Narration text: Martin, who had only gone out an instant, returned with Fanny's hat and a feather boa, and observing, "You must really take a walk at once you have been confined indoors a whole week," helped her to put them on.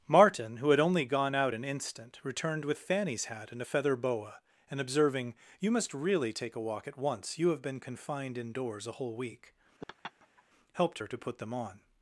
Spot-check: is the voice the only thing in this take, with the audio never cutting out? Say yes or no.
no